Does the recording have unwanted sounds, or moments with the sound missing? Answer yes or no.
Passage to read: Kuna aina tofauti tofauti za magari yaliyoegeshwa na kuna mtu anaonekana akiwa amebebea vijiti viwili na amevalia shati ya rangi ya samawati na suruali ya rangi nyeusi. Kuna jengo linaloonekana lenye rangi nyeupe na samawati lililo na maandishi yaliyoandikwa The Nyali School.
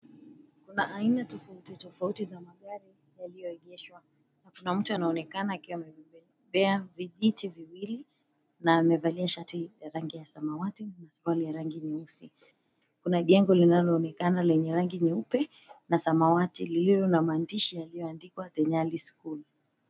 no